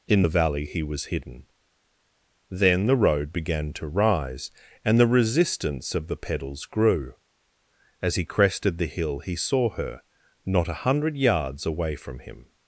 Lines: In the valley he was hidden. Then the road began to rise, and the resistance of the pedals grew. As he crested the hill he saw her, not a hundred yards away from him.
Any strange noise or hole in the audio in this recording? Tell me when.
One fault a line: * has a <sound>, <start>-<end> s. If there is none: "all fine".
all fine